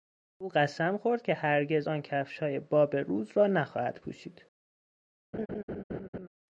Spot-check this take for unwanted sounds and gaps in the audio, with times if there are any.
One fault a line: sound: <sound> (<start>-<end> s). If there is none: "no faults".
sound: laugh (5.3-6.3 s)